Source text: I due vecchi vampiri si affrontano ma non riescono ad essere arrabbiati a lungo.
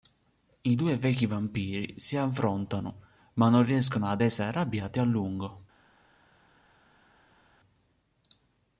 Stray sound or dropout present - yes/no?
no